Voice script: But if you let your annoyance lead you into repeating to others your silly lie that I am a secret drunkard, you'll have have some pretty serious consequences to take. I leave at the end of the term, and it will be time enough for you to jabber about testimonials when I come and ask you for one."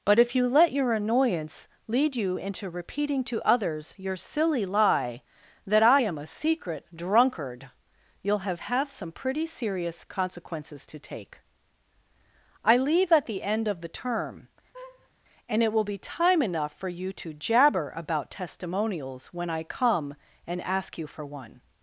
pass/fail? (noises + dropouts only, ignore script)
fail